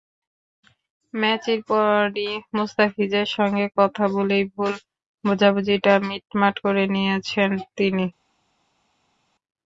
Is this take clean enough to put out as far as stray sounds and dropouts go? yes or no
yes